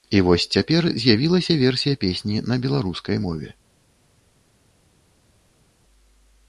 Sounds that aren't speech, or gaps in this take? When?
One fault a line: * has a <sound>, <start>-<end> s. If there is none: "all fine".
all fine